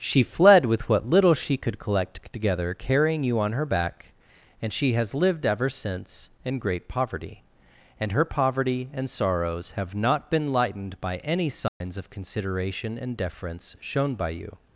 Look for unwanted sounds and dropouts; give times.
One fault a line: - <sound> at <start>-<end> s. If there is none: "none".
- dropout at 11.7-11.8 s